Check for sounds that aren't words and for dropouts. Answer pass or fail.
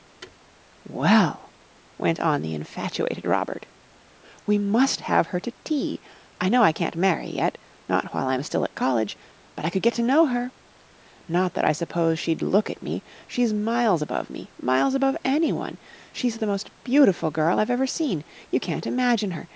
fail